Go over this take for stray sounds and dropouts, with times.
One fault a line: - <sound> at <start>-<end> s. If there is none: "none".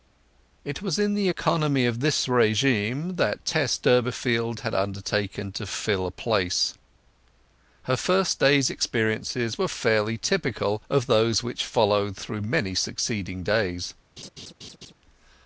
- laugh at 14.2-14.9 s